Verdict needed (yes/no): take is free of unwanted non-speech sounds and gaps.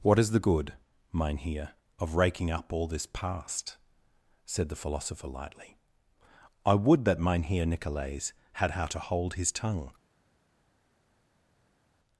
yes